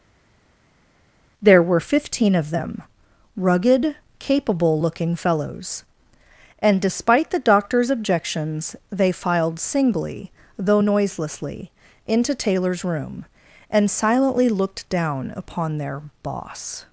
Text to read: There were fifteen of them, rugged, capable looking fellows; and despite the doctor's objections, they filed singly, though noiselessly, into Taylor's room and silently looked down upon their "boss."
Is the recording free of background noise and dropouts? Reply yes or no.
yes